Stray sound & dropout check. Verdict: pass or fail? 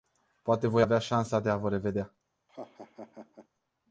fail